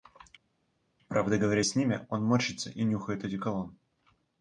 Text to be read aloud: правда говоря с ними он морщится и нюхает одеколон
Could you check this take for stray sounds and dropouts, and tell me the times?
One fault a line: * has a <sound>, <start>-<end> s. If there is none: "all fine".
all fine